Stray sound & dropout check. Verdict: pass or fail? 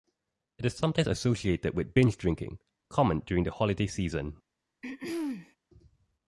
fail